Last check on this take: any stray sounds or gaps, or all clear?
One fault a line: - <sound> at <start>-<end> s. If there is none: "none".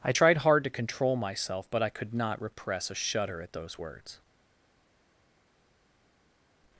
none